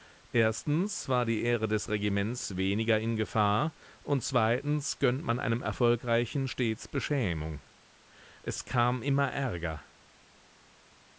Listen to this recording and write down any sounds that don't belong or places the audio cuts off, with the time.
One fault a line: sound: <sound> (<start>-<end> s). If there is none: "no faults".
no faults